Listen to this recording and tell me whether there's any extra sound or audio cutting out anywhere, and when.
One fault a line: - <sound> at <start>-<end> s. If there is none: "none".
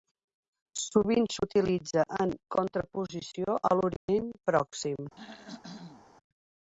- dropout at 4.0-4.1 s
- throat clearing at 5.2-6.1 s